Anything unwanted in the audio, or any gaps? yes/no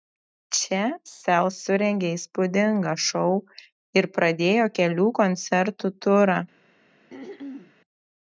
yes